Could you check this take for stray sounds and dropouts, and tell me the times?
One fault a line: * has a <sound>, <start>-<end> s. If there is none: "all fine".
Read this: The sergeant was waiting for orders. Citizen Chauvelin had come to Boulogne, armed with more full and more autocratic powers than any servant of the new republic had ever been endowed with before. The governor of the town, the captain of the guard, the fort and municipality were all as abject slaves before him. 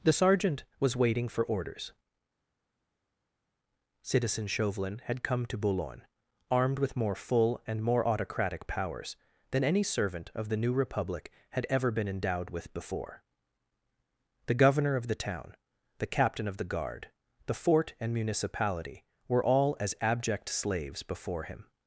all fine